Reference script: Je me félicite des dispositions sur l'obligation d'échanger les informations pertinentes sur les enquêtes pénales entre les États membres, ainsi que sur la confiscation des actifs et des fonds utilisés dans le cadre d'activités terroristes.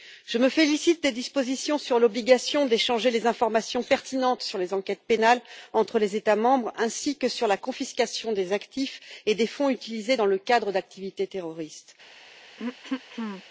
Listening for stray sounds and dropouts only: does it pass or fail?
fail